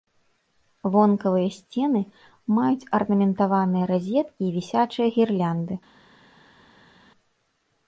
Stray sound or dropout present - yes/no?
no